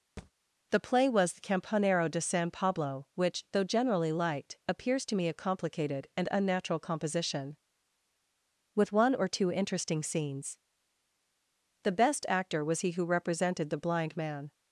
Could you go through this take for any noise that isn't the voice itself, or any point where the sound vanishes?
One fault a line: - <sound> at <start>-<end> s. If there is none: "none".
- thud at 0.2-0.3 s